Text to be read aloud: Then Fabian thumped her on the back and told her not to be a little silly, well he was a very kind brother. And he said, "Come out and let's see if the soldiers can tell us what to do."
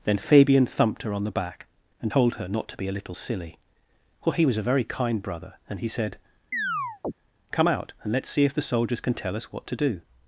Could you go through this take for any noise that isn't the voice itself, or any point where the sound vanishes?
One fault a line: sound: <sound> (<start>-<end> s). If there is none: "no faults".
sound: chirp (6.5-7.1 s)